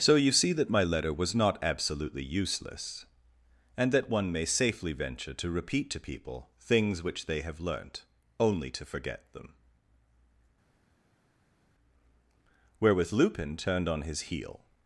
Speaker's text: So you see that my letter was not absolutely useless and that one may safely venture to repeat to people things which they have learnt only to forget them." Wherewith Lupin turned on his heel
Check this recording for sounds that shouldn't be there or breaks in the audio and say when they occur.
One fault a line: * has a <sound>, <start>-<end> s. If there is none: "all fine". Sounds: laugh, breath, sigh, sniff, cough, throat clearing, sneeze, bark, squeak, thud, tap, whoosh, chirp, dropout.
all fine